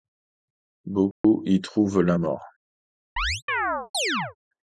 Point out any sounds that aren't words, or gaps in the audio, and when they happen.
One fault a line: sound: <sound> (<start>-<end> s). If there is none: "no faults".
sound: dropout (1.1-1.2 s)
sound: chirp (3.2-4.4 s)